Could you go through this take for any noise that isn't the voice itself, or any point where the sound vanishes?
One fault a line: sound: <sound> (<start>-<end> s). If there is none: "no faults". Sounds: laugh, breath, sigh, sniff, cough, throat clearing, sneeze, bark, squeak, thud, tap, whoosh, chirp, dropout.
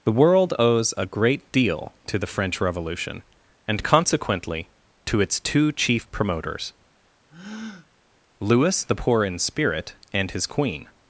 sound: breath (7.3-7.9 s)